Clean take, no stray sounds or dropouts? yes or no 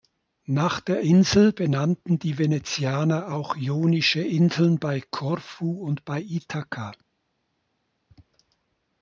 yes